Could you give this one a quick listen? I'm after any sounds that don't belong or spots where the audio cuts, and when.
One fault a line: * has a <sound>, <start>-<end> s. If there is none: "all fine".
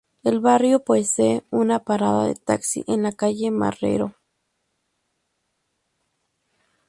all fine